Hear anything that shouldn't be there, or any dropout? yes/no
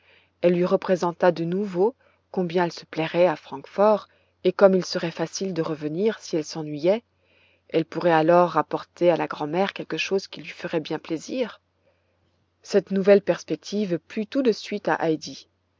no